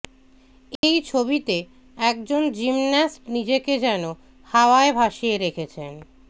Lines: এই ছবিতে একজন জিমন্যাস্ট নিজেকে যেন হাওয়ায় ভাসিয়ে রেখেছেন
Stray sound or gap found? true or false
true